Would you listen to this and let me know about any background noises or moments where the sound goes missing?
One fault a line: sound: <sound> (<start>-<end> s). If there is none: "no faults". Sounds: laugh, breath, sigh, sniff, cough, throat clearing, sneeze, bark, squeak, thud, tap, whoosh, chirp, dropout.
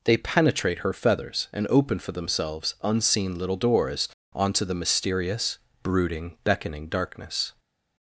no faults